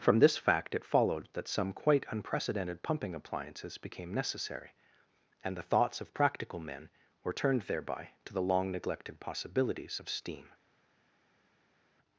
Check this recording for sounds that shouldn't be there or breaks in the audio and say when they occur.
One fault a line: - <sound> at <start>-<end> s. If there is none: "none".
none